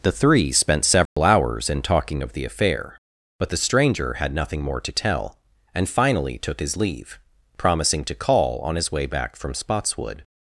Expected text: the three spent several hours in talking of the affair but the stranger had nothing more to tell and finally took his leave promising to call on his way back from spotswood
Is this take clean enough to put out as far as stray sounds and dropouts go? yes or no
no